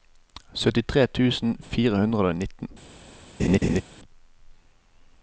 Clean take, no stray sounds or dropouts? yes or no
no